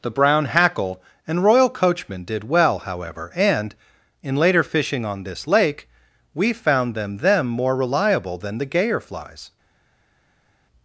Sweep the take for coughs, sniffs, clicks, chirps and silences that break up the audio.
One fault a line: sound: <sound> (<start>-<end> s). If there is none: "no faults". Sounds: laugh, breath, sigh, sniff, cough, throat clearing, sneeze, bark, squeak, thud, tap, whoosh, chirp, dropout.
no faults